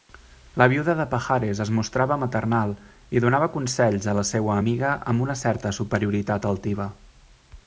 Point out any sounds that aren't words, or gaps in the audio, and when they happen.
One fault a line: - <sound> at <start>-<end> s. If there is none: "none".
none